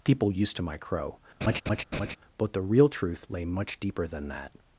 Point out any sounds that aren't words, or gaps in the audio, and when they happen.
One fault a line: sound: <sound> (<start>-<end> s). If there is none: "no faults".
sound: laugh (1.4-2.2 s)